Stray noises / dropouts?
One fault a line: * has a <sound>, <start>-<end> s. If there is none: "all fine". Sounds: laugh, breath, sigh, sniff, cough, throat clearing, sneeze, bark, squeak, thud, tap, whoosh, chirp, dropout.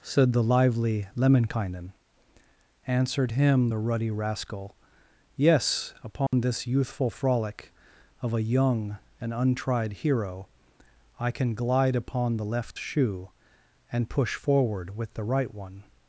* has a dropout, 6.3-6.3 s